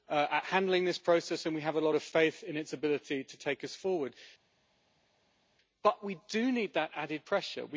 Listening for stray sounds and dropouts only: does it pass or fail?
pass